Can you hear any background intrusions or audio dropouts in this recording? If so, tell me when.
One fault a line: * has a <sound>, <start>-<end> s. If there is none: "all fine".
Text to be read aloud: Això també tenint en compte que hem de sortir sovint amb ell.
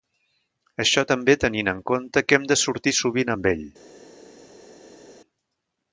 all fine